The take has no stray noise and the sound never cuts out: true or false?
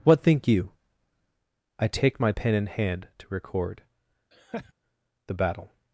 false